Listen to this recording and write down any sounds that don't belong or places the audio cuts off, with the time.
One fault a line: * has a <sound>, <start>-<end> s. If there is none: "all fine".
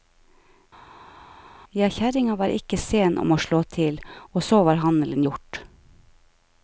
all fine